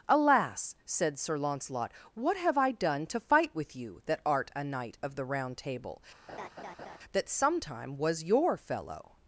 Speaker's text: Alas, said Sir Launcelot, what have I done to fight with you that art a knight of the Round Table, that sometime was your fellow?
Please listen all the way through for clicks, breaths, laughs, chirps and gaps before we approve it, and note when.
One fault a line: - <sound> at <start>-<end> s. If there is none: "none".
- laugh at 6.3-7.0 s